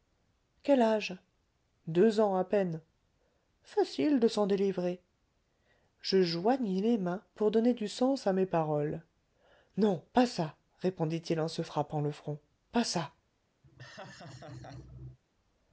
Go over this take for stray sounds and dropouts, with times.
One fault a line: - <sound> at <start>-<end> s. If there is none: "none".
- laugh at 13.6-15.2 s